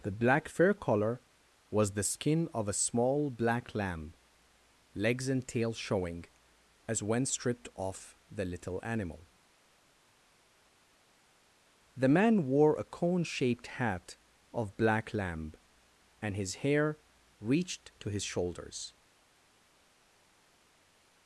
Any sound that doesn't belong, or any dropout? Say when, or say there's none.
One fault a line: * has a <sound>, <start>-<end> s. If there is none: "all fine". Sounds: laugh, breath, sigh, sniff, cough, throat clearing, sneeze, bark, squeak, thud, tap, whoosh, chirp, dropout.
all fine